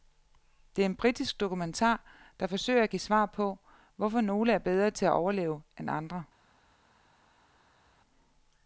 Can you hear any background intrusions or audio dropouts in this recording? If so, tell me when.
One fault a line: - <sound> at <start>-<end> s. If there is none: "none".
none